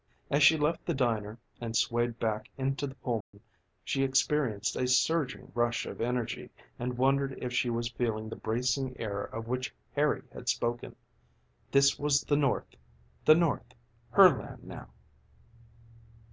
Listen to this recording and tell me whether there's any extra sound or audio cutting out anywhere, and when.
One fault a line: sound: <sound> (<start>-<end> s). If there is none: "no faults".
sound: dropout (3.2-3.3 s)